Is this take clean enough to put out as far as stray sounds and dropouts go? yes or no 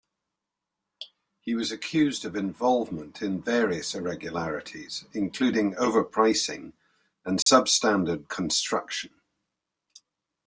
no